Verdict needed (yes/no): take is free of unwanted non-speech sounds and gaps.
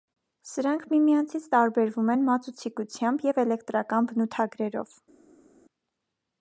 yes